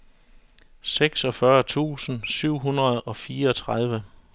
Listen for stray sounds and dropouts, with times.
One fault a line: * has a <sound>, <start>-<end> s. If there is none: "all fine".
all fine